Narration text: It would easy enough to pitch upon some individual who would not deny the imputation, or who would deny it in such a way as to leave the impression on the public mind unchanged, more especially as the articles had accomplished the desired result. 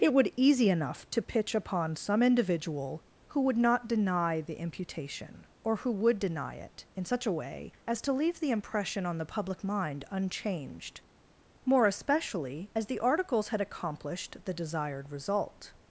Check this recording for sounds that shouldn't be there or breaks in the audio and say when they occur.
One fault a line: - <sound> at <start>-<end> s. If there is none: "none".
none